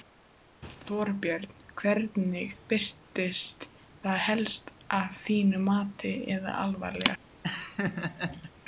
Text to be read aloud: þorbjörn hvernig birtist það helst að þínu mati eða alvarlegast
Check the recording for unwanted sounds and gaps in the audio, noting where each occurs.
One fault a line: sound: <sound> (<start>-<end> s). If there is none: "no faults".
sound: laugh (7.4-8.5 s)